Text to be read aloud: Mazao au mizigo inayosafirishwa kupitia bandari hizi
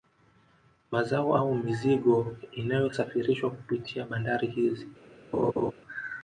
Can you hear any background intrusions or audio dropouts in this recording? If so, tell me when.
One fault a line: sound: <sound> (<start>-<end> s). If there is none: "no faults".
sound: laugh (5.3-5.7 s)